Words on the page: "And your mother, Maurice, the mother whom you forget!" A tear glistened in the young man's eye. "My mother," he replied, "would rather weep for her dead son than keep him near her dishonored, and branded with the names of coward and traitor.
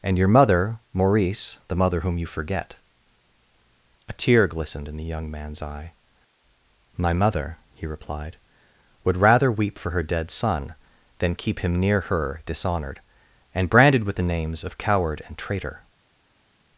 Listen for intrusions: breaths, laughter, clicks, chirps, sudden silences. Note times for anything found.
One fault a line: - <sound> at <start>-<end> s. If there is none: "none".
none